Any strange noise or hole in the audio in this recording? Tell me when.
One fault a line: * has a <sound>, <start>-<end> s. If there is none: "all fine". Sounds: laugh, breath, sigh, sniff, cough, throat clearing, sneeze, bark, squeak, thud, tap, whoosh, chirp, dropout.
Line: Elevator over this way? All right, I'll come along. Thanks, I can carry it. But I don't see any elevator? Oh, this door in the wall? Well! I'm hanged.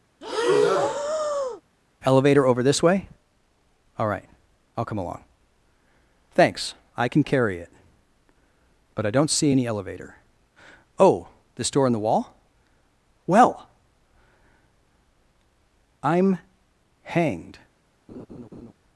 * has a breath, 0.2-1.6 s
* has a laugh, 18.1-18.7 s